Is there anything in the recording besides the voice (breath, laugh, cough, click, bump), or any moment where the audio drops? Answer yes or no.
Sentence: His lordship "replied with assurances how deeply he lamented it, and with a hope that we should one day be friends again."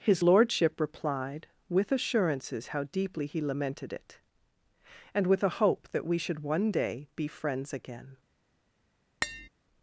yes